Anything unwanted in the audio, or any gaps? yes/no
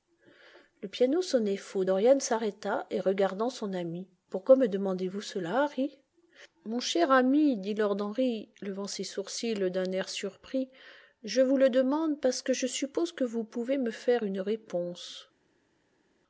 no